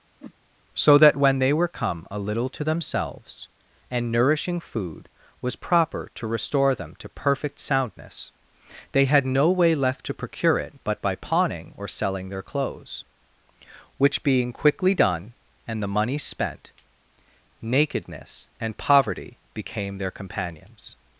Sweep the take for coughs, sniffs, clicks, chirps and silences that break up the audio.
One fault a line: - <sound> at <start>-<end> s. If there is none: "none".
- whoosh at 0.2-0.3 s